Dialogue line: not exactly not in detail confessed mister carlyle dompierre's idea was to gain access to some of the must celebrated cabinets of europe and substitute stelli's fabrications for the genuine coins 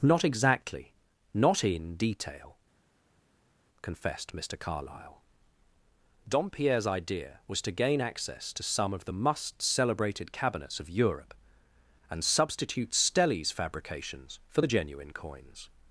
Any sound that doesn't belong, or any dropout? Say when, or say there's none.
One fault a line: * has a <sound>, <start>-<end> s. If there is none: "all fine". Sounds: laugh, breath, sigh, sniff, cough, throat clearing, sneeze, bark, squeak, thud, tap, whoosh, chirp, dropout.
all fine